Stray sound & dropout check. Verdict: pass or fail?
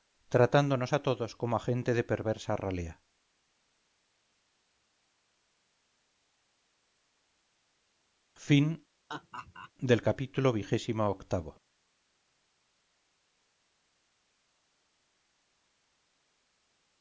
fail